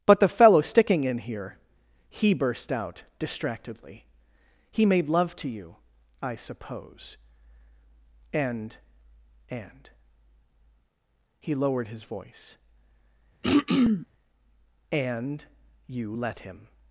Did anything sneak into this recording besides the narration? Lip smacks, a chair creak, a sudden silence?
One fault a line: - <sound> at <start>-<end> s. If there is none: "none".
- throat clearing at 13.4-14.1 s